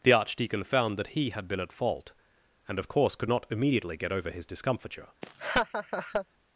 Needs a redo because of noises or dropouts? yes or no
yes